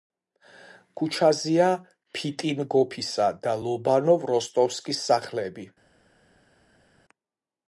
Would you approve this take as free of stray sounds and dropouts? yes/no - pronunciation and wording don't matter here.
yes